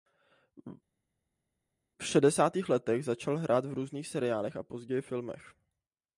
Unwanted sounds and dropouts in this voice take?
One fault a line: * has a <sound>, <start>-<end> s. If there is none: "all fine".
all fine